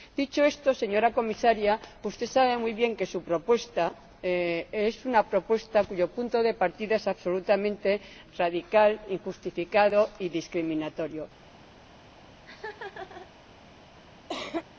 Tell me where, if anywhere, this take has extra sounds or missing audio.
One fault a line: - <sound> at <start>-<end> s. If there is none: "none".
- laugh at 12.4-13.3 s
- cough at 14.3-14.7 s